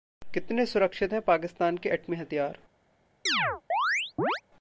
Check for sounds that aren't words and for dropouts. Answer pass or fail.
fail